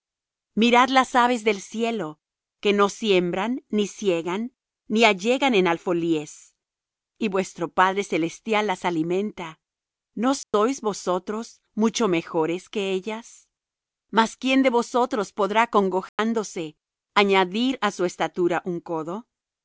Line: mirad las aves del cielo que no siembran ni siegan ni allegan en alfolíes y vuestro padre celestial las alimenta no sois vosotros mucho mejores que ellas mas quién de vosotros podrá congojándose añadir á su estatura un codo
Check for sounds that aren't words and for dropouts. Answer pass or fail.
fail